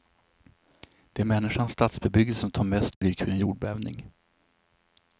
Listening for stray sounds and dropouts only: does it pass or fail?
fail